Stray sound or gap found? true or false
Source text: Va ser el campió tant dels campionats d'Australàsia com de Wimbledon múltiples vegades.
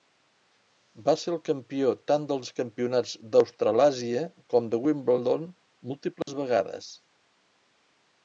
true